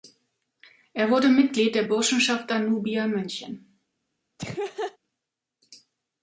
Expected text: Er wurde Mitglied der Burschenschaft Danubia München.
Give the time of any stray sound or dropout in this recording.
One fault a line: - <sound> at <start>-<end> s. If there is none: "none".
- laugh at 4.4-5.0 s